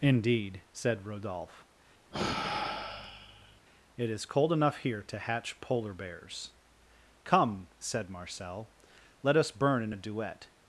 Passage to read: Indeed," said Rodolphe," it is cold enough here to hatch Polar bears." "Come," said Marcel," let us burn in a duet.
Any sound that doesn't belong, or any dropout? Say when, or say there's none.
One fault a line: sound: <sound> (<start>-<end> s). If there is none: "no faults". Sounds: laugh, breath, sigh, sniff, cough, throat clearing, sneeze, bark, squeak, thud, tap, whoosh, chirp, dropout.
sound: sigh (2.1-3.6 s)